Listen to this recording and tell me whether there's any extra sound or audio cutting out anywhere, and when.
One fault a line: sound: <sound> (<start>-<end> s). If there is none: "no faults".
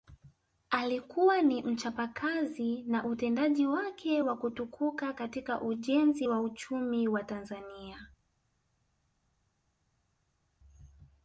no faults